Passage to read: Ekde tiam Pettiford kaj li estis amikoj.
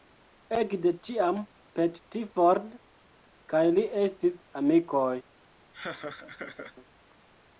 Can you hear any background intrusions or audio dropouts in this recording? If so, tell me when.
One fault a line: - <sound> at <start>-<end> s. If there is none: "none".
- laugh at 5.7-6.8 s